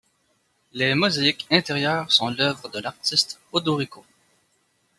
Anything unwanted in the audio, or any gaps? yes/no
no